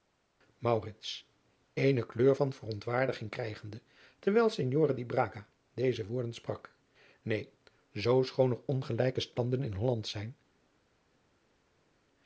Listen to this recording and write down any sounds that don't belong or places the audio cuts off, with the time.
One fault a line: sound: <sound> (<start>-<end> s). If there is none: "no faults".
no faults